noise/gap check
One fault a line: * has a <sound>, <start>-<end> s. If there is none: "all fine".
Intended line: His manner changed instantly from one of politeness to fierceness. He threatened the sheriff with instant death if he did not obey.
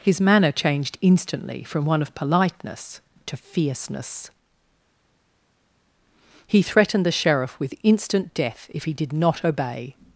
all fine